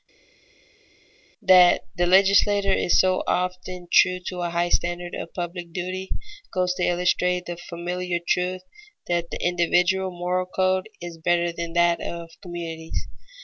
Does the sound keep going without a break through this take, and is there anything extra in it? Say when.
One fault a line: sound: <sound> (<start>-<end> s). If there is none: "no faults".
no faults